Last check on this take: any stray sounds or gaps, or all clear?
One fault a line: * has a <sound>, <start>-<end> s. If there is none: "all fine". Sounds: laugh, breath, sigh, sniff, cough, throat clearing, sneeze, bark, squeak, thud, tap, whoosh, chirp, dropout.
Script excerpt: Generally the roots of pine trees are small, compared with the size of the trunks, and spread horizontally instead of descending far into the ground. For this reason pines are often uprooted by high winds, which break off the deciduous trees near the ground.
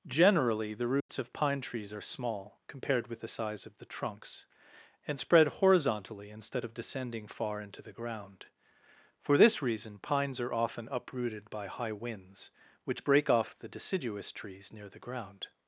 * has a dropout, 1.0-1.1 s